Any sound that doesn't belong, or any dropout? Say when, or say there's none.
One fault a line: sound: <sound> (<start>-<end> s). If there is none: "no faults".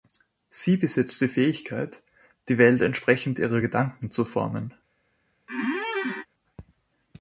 sound: squeak (5.5-6.3 s)